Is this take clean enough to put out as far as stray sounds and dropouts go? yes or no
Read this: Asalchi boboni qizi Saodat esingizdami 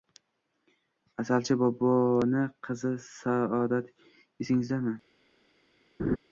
no